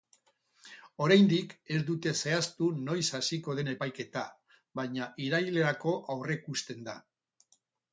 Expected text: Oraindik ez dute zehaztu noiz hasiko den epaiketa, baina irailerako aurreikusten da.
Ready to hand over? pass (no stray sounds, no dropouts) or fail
pass